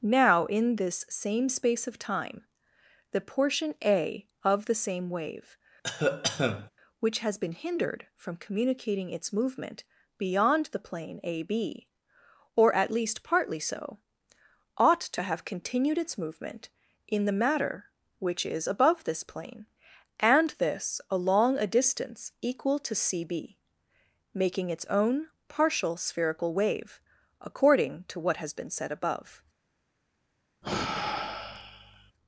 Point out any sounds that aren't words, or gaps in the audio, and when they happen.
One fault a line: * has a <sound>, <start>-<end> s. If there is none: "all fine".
* has a cough, 5.8-6.7 s
* has a sigh, 30.6-32.1 s